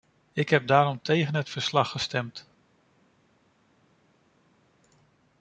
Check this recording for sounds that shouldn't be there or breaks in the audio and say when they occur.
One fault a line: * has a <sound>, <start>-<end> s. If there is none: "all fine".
all fine